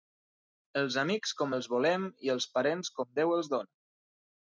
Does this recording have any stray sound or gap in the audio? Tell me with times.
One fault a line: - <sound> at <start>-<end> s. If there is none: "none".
none